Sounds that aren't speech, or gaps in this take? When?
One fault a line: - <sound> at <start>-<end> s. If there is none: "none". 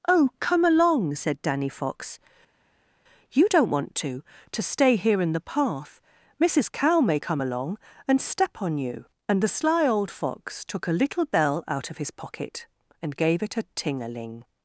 none